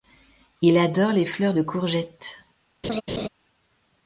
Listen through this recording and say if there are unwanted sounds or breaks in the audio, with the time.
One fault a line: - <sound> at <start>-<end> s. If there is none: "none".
- laugh at 2.8-3.3 s